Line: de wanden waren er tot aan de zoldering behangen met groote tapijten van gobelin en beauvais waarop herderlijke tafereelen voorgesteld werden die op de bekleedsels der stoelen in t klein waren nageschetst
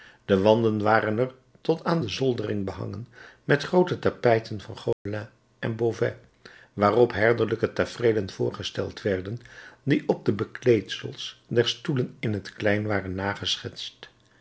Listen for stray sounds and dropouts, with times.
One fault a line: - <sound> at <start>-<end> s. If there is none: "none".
- dropout at 4.9-5.1 s